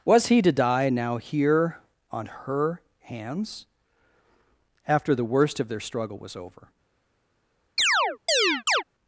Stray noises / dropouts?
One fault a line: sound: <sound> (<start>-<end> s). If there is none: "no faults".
sound: chirp (7.8-8.8 s)